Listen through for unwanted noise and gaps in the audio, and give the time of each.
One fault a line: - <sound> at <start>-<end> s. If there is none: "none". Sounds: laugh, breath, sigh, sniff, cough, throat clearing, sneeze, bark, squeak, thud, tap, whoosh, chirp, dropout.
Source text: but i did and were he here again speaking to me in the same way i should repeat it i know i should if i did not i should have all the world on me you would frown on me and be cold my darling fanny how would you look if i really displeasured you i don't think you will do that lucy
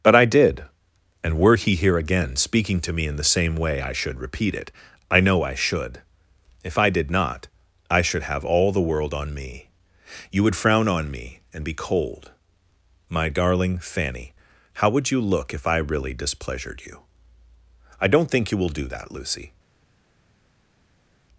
none